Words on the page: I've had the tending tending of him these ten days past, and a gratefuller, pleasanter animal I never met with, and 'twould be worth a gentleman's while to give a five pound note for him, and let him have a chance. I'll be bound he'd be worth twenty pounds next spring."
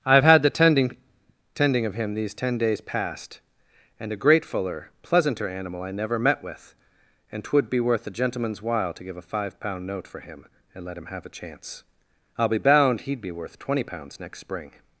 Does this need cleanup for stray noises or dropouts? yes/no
no